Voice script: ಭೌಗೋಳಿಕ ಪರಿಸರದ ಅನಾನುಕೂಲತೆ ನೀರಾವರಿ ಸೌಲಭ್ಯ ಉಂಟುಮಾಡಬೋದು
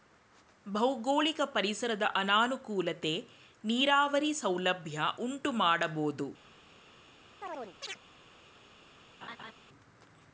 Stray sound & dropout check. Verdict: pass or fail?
fail